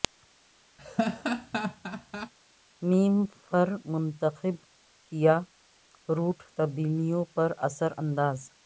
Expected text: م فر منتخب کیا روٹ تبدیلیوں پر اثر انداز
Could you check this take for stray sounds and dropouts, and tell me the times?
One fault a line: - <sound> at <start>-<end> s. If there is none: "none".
- laugh at 0.8-2.3 s